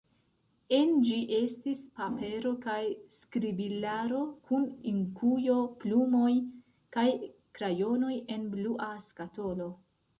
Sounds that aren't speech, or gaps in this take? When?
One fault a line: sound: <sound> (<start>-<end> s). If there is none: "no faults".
no faults